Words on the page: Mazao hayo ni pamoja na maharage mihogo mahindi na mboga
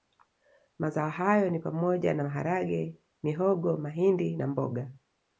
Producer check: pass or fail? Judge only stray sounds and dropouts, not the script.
pass